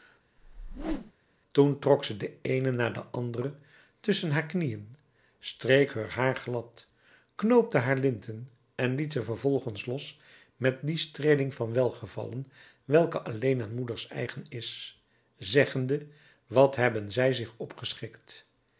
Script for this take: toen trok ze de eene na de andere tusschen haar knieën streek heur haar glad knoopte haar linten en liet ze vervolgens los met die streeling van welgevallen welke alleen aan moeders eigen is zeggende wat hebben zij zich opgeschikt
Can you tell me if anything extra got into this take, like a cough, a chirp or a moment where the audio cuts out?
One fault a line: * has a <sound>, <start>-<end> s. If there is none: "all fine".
* has a whoosh, 0.4-1.1 s